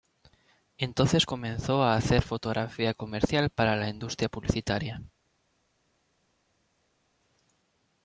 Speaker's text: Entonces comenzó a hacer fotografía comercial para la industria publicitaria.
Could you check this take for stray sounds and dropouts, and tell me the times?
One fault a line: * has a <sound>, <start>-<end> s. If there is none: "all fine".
all fine